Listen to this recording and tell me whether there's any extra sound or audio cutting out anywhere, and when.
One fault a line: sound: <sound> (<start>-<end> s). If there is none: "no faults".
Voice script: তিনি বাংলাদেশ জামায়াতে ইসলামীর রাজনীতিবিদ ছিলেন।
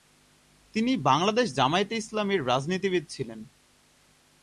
no faults